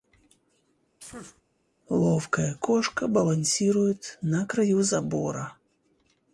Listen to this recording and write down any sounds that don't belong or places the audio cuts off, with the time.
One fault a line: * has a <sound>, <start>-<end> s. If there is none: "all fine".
* has a sneeze, 1.0-1.4 s